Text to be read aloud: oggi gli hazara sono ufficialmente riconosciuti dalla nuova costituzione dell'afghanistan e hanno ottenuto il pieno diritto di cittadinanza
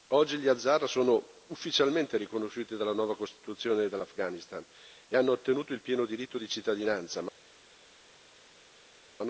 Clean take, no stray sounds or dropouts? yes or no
yes